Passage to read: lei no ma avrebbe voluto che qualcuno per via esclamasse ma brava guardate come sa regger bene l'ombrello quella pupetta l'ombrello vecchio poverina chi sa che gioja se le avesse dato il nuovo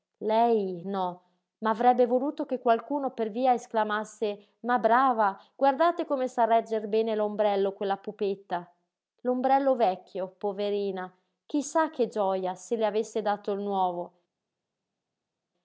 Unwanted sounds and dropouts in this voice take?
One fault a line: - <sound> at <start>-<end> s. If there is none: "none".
none